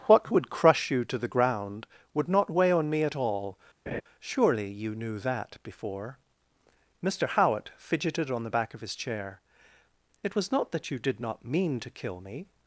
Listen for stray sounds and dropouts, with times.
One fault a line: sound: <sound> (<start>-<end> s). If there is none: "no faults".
sound: laugh (3.9-4.0 s)